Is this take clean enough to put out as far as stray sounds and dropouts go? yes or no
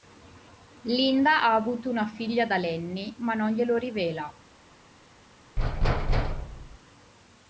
no